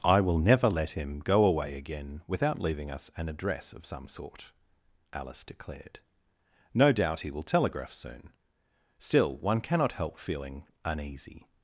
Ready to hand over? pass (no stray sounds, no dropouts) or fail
pass